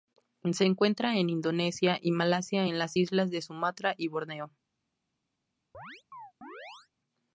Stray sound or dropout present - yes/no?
yes